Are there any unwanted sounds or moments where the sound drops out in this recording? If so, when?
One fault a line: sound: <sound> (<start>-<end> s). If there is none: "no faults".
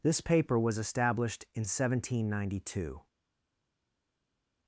no faults